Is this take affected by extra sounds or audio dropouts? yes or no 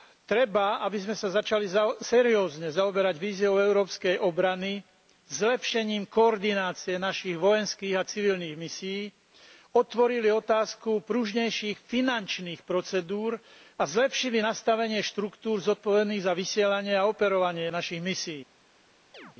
yes